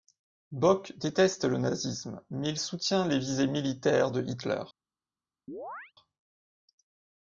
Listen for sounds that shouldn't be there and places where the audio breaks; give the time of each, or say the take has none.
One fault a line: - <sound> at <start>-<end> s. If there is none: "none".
- chirp at 5.5-5.9 s